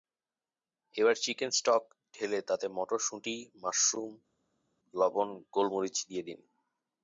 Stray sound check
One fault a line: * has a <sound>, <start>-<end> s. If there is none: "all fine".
all fine